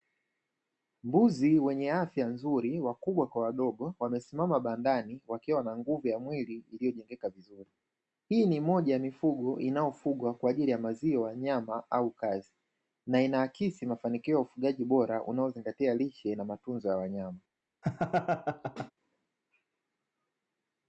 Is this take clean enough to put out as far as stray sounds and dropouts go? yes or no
no